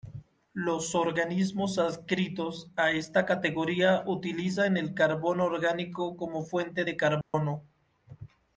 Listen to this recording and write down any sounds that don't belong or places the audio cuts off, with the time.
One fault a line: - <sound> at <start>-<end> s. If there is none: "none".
- dropout at 7.2-7.3 s